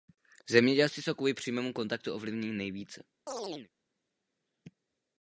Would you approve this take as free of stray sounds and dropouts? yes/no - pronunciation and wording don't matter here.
no